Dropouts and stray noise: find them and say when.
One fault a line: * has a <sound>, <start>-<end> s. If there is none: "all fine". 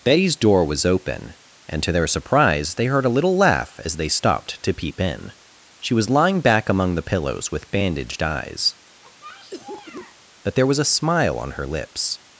* has a cough, 9.0-10.2 s